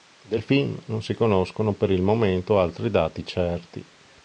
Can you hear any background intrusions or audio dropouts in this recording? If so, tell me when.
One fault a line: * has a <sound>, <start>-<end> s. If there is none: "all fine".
all fine